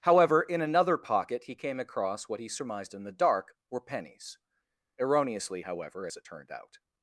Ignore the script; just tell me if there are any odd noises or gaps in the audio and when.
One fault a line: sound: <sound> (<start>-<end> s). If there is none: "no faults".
no faults